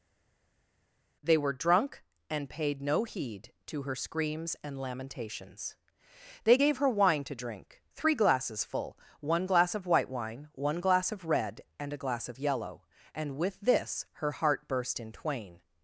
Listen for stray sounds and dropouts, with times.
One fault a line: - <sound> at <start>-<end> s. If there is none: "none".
none